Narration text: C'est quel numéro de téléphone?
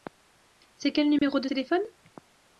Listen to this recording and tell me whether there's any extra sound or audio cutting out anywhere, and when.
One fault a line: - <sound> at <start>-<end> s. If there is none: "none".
- dropout at 1.2-1.2 s